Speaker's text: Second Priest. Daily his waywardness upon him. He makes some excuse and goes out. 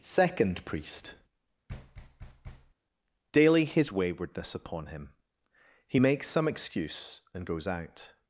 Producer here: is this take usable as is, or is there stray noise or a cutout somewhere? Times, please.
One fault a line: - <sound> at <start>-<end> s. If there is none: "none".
- thud at 1.7-2.7 s